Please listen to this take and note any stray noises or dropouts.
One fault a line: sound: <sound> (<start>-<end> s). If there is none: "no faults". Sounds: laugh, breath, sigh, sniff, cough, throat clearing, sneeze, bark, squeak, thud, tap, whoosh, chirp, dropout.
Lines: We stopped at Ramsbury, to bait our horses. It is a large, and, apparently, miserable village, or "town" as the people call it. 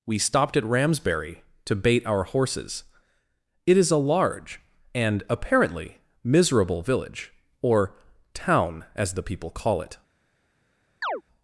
sound: chirp (11.0-11.2 s)